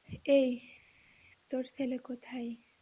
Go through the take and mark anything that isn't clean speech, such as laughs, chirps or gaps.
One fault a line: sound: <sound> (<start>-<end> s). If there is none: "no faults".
no faults